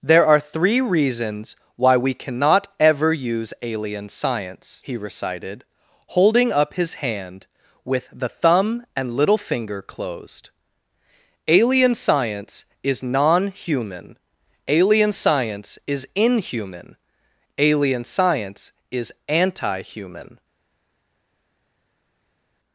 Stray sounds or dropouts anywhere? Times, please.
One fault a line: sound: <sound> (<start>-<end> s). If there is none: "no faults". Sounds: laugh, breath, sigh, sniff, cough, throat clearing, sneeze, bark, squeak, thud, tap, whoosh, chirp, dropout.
no faults